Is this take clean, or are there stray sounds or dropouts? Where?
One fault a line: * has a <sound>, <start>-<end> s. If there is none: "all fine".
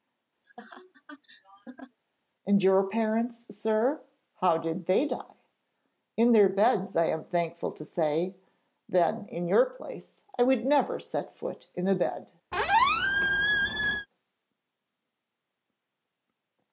* has a laugh, 0.4-2.0 s
* has a squeak, 12.5-14.1 s